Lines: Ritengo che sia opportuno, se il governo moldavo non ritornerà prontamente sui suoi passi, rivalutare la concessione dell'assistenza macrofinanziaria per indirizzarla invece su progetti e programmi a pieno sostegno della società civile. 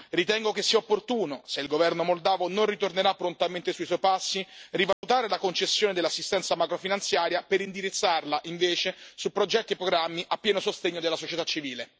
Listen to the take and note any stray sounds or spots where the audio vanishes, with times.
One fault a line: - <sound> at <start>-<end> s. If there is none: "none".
- dropout at 4.9-5.0 s